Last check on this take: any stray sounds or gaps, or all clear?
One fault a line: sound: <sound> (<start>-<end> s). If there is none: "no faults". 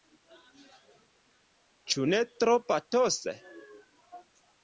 no faults